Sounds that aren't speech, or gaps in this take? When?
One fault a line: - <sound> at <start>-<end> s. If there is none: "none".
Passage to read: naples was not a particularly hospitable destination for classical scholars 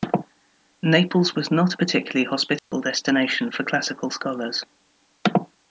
- dropout at 2.6-2.7 s